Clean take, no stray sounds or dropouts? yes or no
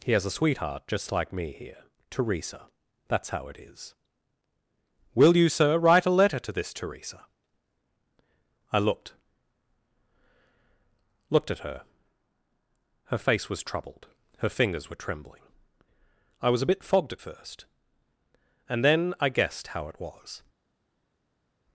yes